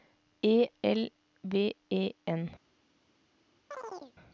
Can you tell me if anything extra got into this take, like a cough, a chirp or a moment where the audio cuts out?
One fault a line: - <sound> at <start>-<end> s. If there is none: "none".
- chirp at 3.7-4.1 s